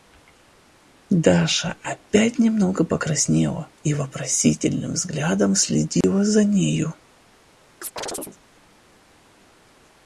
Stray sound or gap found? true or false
true